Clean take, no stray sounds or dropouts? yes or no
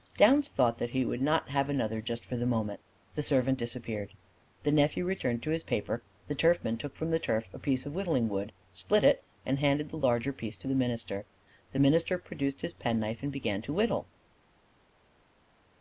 yes